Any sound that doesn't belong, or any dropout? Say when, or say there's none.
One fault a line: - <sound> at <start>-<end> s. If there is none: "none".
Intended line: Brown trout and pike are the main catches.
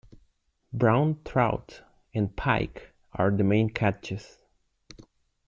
none